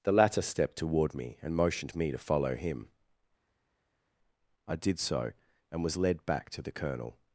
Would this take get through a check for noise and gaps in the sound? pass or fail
pass